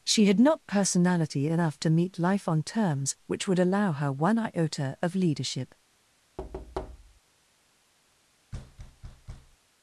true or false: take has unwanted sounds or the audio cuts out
true